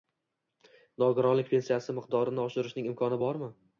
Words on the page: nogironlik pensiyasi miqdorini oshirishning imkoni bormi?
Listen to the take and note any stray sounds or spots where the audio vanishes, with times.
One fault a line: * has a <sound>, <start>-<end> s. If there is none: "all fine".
all fine